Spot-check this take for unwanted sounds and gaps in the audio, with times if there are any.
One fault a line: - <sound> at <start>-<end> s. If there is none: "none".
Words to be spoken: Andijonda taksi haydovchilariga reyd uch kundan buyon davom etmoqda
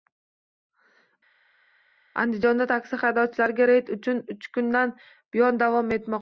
none